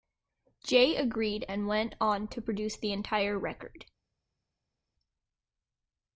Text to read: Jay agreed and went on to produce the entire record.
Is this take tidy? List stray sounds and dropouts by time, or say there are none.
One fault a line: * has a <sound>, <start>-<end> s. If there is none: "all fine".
all fine